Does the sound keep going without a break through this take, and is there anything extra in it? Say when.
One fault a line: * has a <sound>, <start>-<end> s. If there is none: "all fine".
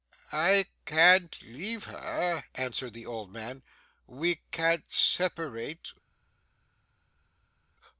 all fine